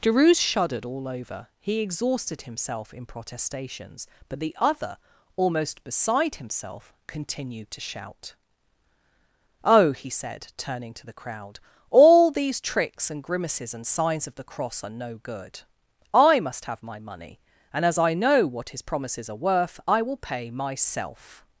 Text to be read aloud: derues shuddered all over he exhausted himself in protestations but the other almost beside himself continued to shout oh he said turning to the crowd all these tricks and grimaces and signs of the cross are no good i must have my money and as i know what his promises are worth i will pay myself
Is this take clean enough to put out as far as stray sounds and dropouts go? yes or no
yes